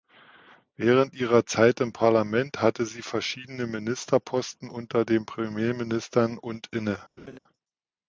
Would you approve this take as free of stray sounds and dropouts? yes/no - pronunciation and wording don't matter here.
no